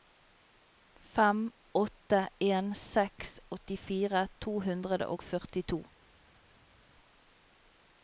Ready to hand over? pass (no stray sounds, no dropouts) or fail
pass